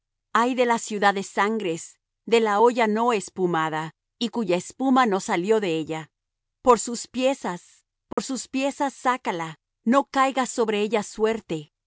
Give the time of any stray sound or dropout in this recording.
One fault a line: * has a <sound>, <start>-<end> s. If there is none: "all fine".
* has a dropout, 8.1-8.2 s